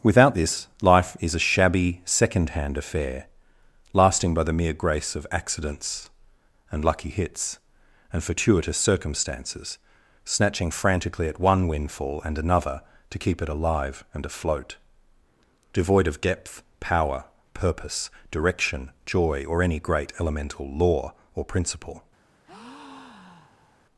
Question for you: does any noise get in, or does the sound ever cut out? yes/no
yes